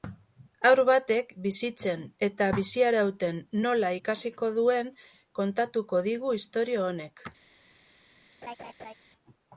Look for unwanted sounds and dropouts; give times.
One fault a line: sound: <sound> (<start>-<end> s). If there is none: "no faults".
sound: laugh (8.4-8.9 s)